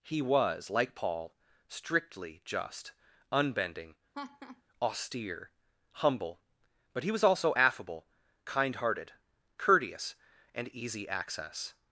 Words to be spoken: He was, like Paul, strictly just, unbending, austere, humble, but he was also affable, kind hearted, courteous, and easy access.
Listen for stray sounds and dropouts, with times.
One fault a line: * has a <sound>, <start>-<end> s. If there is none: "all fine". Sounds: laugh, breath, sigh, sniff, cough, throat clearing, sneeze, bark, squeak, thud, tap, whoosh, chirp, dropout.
* has a laugh, 4.1-4.6 s